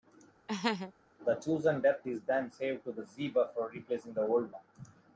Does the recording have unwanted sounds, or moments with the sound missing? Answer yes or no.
yes